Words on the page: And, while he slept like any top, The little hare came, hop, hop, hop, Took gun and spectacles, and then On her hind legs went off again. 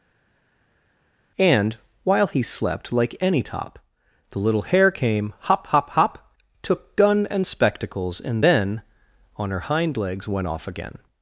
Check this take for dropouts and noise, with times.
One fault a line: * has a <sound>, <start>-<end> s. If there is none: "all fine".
all fine